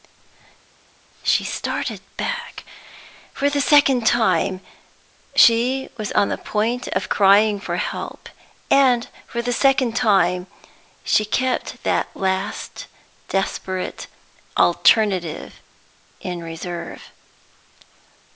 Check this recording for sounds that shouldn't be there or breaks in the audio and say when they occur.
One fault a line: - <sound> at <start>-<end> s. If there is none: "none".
none